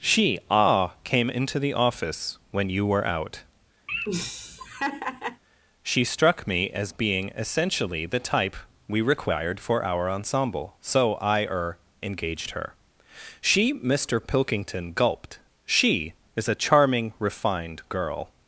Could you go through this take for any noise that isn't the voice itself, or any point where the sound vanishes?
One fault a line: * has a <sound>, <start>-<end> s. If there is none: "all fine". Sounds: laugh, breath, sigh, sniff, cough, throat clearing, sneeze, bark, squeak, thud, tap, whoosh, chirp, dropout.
* has a laugh, 3.9-5.4 s